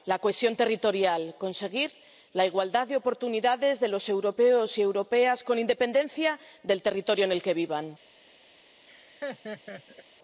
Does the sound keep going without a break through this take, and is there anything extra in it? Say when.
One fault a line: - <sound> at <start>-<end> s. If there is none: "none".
- laugh at 8.9-10.0 s